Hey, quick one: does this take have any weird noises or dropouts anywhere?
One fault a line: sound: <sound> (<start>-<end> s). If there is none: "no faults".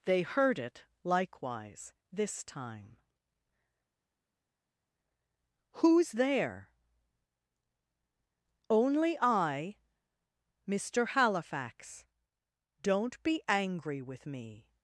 no faults